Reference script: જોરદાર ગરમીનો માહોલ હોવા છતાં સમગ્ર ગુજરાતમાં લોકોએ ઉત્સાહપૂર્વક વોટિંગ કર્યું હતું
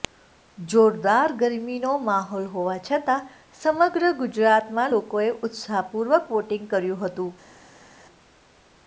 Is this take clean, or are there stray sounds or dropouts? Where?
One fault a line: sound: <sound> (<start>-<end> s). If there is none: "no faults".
no faults